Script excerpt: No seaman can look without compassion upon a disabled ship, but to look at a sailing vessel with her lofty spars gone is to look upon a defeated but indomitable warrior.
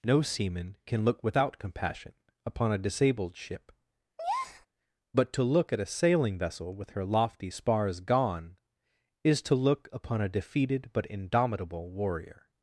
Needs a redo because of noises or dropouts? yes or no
yes